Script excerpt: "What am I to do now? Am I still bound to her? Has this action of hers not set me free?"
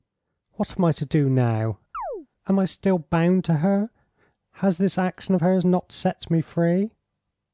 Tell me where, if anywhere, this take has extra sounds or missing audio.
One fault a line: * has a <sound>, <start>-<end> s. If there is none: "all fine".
* has a chirp, 1.9-2.3 s